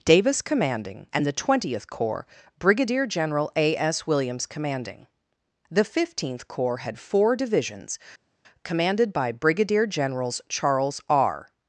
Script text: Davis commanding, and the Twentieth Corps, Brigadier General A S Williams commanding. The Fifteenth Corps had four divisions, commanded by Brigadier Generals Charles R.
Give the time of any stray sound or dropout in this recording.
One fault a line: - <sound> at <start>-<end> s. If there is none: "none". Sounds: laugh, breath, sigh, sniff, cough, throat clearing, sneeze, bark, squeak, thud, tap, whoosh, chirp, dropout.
none